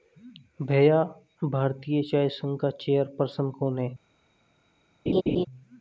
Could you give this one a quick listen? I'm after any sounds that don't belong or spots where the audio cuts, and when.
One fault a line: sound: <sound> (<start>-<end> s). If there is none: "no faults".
sound: laugh (5.1-5.5 s)